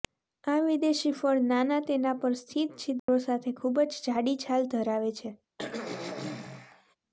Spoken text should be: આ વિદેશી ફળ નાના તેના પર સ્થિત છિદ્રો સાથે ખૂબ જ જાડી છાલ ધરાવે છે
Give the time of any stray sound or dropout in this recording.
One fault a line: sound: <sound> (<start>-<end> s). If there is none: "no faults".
sound: dropout (3.0-3.1 s)
sound: throat clearing (5.6-7.0 s)